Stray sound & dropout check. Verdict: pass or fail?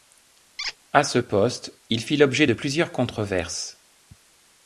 fail